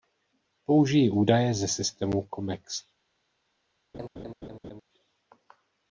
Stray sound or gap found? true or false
true